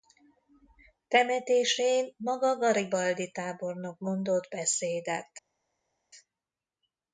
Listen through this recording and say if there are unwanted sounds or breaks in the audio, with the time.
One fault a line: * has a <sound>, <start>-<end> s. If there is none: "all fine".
all fine